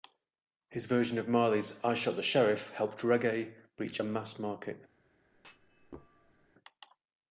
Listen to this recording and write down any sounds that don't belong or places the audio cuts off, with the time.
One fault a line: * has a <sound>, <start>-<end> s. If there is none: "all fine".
* has a thud, 5.3-6.5 s